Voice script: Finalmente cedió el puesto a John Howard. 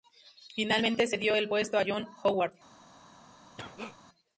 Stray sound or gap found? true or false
true